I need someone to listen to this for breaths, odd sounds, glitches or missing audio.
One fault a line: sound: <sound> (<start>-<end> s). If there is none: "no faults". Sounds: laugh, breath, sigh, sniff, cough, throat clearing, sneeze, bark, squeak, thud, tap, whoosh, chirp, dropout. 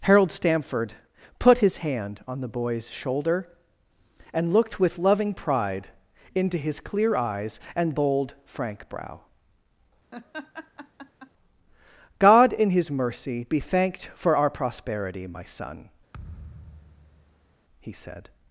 sound: laugh (10.1-11.3 s)
sound: thud (16.1-17.6 s)